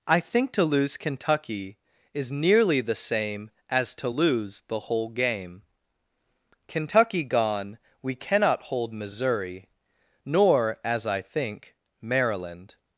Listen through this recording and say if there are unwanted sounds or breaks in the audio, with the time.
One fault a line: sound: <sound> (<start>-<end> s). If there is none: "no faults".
no faults